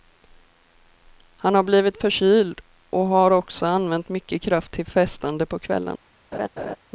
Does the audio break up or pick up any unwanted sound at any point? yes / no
yes